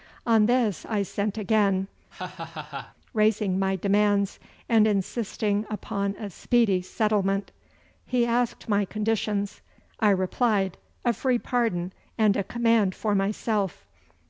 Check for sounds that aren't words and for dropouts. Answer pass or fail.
fail